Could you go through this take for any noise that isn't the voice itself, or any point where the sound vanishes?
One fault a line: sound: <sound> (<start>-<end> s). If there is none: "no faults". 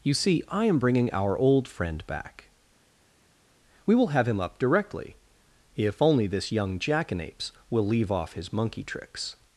no faults